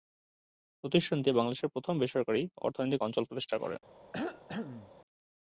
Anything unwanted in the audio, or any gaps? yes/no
yes